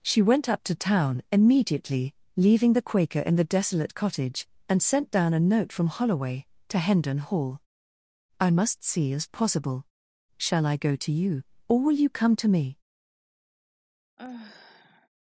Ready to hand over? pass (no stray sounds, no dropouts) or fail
fail